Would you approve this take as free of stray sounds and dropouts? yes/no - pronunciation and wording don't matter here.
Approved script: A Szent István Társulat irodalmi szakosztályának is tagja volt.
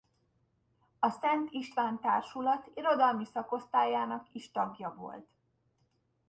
yes